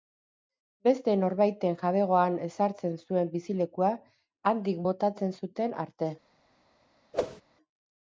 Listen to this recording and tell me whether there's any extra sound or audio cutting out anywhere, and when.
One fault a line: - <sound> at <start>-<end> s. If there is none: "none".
- whoosh at 7.1-7.4 s